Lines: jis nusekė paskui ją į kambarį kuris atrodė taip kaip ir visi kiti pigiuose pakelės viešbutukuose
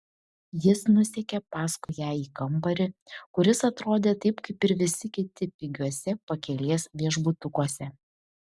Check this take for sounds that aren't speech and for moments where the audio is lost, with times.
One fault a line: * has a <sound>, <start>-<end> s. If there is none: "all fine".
* has a dropout, 1.8-1.9 s